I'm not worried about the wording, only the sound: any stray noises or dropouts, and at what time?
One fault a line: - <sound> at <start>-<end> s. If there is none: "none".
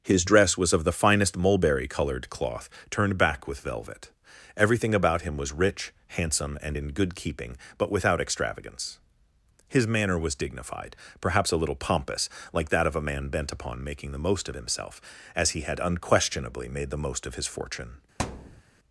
- thud at 18.2-18.6 s